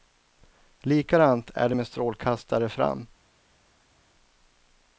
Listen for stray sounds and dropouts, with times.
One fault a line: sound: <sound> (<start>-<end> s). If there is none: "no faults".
no faults